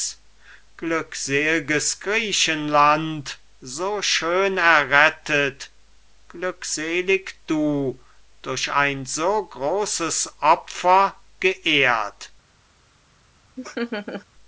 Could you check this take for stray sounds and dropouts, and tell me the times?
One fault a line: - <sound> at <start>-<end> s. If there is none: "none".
- laugh at 13.6-14.3 s